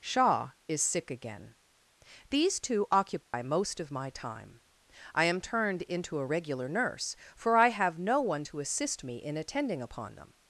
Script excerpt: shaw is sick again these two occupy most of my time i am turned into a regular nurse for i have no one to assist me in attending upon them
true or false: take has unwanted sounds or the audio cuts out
true